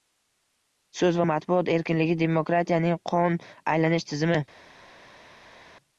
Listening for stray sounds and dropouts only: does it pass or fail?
pass